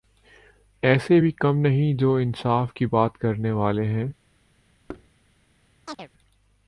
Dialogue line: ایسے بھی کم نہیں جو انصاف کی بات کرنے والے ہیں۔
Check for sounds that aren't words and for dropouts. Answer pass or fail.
fail